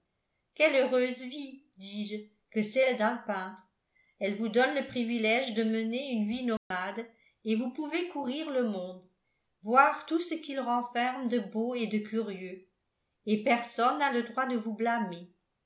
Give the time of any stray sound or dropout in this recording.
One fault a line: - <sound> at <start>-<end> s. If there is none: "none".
- dropout at 6.6-6.7 s